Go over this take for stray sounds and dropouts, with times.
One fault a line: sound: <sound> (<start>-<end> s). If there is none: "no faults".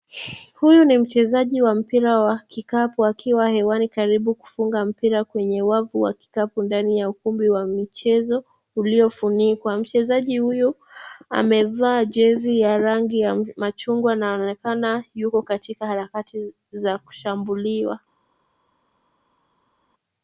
no faults